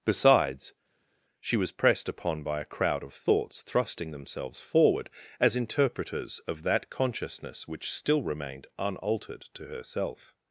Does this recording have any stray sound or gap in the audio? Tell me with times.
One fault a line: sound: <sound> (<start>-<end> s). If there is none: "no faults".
no faults